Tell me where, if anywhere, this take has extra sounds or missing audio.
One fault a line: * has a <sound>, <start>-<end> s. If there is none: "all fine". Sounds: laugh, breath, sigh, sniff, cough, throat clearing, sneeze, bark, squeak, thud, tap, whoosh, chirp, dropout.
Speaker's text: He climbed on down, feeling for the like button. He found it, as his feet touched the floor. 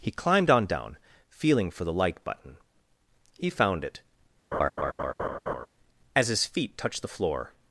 * has a laugh, 4.5-5.7 s